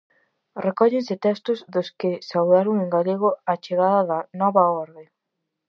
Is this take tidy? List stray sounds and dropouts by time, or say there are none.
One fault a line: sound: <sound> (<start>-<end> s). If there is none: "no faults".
no faults